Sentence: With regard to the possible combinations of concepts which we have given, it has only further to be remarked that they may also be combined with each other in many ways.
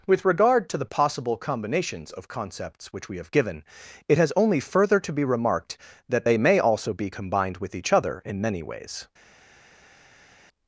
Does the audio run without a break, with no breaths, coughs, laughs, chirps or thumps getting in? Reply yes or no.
yes